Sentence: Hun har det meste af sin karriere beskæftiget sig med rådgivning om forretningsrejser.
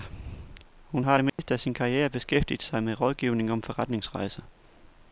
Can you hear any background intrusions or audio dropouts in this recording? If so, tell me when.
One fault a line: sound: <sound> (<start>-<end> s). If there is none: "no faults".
sound: dropout (1.3-1.4 s)